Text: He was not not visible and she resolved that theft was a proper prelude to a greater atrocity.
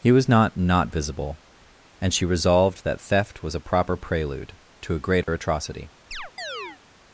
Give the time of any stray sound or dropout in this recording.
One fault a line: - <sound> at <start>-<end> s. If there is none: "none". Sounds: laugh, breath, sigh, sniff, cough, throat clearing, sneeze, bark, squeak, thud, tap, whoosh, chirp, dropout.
- dropout at 5.2-5.3 s
- chirp at 6.1-6.8 s